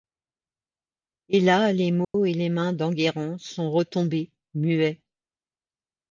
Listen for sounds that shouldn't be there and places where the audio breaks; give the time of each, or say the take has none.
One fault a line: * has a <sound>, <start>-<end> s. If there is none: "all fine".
* has a dropout, 2.0-2.1 s